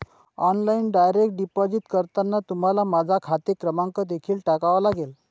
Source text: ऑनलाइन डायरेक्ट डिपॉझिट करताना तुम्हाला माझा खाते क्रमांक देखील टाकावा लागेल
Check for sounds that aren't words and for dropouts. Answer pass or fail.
pass